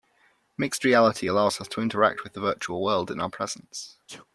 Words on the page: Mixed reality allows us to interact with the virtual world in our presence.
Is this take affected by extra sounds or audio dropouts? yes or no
yes